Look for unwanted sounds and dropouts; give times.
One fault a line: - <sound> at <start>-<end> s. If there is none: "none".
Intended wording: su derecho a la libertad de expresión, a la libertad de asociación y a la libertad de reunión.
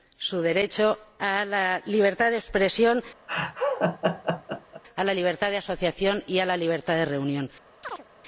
- laugh at 3.3-4.8 s
- chirp at 7.8-8.0 s